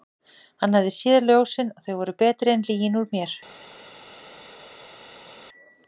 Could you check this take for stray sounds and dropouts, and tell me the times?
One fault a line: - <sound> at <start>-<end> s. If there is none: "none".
none